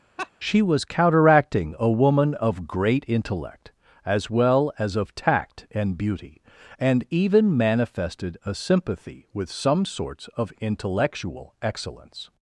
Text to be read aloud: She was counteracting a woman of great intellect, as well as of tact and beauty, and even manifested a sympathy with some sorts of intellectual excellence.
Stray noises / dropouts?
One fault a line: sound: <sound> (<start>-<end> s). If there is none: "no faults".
sound: laugh (0.2-0.3 s)